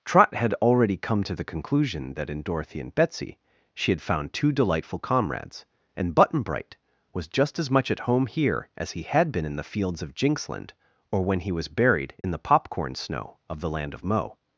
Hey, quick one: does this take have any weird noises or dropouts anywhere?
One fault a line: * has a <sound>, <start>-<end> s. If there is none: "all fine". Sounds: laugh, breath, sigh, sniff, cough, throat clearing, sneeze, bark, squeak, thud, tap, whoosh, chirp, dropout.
* has a dropout, 12.2-12.2 s